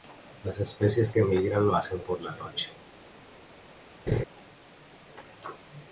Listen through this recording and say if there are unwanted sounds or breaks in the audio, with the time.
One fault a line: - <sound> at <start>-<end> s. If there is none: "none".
- laugh at 4.1-4.2 s